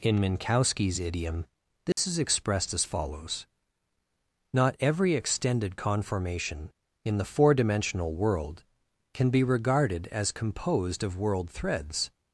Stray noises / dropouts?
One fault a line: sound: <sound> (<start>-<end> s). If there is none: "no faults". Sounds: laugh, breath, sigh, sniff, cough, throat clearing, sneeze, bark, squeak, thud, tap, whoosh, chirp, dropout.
sound: dropout (1.9-2.0 s)